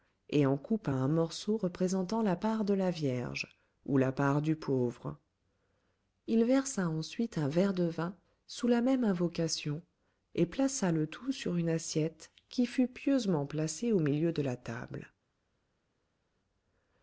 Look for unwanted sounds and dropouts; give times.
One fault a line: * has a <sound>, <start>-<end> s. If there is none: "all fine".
all fine